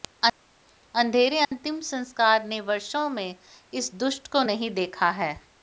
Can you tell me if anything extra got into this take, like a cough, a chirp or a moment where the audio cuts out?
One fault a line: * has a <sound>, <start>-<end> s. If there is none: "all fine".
* has a dropout, 1.4-1.5 s